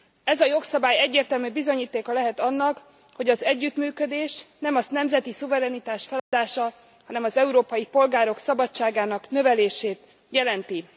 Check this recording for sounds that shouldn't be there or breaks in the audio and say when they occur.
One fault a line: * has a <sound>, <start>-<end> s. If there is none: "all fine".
* has a dropout, 6.2-6.3 s